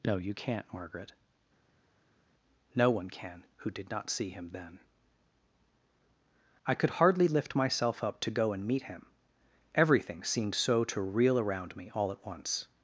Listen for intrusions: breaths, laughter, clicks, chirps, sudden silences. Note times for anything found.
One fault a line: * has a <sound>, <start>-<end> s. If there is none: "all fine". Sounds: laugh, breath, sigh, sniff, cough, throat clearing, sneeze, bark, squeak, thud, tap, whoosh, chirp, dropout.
all fine